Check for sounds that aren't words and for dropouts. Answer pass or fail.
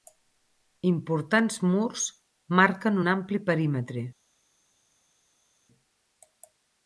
pass